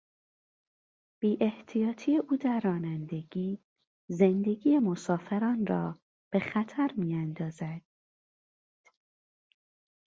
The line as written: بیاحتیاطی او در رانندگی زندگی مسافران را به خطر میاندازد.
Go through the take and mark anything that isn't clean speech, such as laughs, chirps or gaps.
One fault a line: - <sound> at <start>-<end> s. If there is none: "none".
none